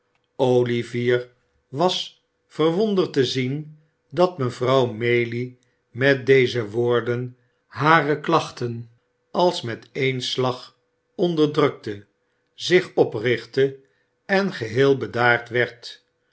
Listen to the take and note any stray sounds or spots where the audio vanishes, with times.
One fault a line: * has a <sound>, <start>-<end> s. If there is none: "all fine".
all fine